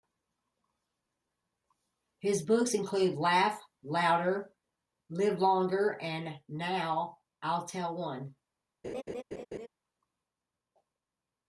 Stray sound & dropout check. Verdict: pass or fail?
fail